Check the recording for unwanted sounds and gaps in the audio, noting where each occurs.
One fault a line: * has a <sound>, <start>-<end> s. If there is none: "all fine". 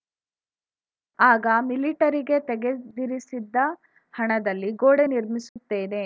* has a dropout, 5.5-5.6 s